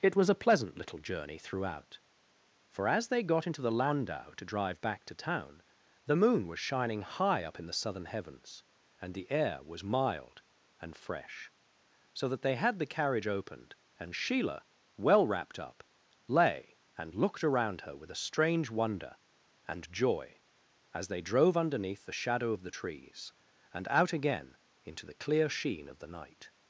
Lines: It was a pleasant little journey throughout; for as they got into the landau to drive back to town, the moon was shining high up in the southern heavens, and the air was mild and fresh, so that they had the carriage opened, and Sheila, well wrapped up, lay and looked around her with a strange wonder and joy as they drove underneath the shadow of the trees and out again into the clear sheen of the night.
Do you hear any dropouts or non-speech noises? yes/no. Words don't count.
no